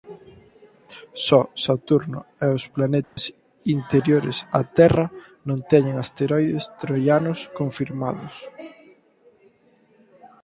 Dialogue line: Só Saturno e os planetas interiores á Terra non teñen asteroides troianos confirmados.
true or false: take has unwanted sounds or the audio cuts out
true